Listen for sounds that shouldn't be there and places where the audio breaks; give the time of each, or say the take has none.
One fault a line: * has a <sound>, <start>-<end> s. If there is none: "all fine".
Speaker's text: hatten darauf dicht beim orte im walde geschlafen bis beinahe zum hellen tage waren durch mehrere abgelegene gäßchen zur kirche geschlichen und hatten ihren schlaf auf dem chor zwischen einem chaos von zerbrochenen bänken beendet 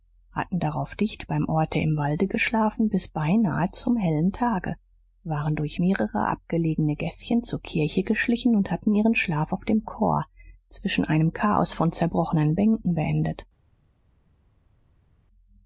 all fine